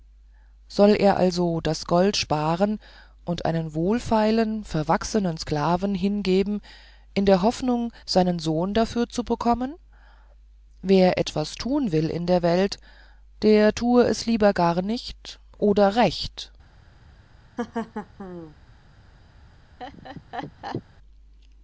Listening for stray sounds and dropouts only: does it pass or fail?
fail